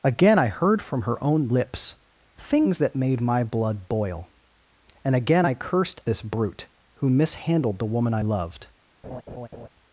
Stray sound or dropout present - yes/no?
yes